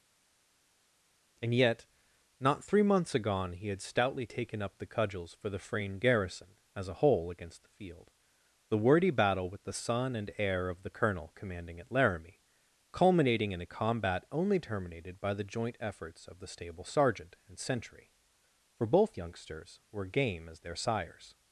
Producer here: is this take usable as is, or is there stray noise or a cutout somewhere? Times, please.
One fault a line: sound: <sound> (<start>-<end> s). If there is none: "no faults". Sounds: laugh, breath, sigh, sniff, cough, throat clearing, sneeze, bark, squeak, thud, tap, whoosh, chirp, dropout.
no faults